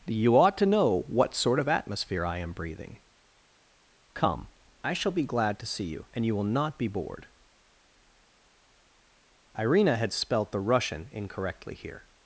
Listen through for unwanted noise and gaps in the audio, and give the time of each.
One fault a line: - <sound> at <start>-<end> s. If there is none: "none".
none